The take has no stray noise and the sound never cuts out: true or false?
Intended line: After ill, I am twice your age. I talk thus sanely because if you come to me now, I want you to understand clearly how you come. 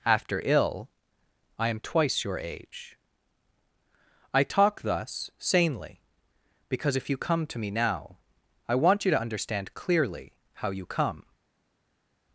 true